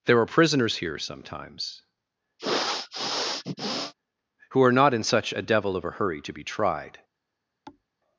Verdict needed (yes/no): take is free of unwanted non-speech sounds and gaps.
no